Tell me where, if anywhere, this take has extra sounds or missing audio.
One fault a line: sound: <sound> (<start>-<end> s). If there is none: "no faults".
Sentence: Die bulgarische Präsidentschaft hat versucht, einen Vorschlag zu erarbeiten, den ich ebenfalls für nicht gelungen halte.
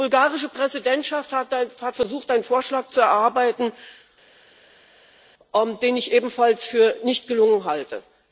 no faults